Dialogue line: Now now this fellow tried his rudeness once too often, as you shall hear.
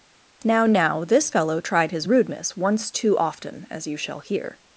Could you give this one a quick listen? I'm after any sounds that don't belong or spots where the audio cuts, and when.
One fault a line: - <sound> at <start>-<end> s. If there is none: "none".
none